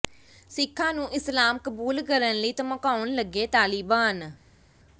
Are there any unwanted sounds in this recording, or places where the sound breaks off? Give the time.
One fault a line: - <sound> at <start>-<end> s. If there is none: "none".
none